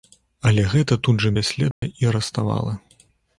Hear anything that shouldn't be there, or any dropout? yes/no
yes